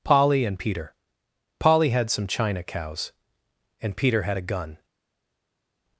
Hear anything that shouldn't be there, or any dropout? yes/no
no